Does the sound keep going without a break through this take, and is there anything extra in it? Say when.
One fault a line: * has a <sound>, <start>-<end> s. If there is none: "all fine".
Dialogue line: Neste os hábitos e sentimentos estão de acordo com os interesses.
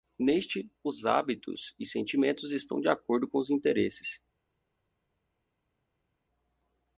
all fine